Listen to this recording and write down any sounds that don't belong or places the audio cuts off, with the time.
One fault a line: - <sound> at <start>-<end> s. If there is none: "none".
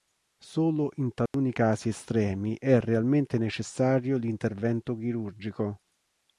- dropout at 1.3-1.3 s